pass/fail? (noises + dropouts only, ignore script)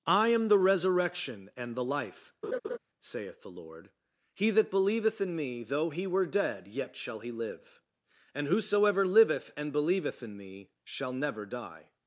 fail